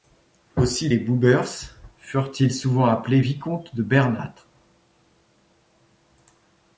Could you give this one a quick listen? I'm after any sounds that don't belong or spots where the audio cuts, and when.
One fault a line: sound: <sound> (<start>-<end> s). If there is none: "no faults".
no faults